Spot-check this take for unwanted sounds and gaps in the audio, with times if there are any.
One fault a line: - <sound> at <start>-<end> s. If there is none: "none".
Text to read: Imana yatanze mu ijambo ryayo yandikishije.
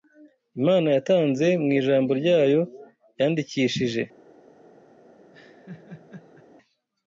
- laugh at 5.3-6.5 s